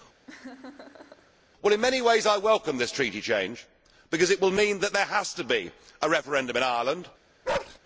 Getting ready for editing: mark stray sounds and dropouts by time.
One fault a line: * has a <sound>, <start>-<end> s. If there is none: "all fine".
* has a laugh, 0.3-1.3 s
* has a bark, 7.4-7.8 s